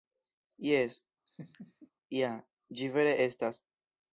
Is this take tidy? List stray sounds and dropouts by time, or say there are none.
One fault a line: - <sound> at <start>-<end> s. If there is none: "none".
- laugh at 1.3-1.9 s